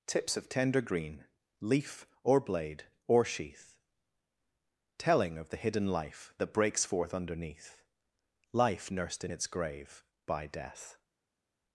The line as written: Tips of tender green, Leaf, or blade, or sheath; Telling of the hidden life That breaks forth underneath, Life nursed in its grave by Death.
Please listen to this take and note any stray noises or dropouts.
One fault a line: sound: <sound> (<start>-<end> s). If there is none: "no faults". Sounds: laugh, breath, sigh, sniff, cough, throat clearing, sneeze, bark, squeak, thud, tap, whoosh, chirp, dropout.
no faults